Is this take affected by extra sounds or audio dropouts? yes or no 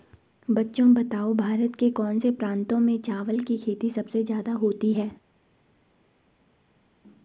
no